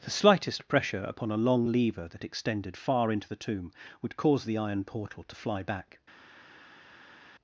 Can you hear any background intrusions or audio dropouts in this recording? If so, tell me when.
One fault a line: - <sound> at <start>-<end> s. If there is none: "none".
none